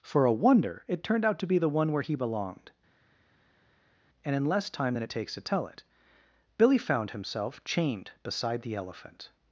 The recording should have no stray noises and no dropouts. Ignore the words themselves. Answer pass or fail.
pass